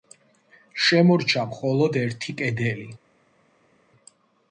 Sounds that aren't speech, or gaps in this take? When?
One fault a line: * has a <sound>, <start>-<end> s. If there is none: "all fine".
all fine